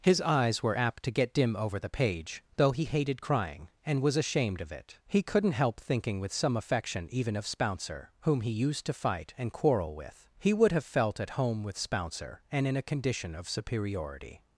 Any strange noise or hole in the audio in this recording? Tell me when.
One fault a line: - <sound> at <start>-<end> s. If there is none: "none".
none